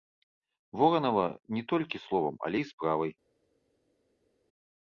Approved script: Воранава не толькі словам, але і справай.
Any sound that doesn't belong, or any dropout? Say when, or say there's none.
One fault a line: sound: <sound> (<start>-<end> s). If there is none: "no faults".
no faults